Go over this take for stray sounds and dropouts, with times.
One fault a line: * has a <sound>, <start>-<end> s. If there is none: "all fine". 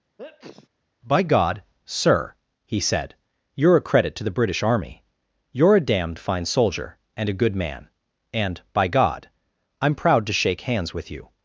* has a sneeze, 0.2-0.7 s